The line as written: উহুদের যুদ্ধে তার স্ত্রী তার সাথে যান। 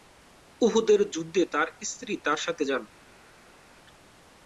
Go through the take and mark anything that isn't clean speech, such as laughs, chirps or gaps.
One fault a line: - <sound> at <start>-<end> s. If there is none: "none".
none